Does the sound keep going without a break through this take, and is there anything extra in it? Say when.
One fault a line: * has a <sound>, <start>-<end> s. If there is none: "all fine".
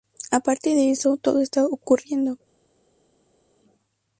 all fine